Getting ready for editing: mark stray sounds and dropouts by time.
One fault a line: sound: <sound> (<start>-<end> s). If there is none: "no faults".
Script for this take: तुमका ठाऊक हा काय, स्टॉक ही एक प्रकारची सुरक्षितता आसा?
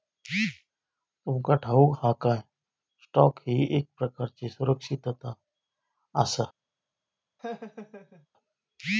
sound: laugh (7.4-8.3 s)